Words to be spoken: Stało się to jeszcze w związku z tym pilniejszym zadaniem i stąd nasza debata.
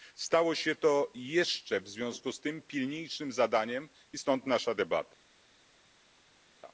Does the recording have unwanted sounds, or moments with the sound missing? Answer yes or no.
no